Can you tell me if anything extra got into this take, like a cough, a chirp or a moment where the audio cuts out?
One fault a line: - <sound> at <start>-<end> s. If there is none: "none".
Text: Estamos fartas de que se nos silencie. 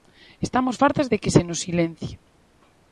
none